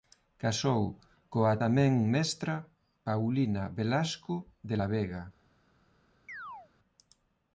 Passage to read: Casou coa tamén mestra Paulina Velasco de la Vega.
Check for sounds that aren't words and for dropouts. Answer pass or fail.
fail